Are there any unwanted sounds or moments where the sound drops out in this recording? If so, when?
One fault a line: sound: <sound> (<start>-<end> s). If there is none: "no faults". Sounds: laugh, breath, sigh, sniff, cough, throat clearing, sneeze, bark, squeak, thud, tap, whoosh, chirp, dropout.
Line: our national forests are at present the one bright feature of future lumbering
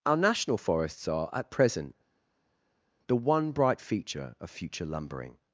no faults